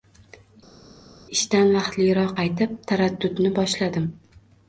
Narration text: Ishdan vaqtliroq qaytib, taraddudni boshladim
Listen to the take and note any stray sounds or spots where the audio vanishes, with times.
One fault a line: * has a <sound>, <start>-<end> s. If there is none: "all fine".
all fine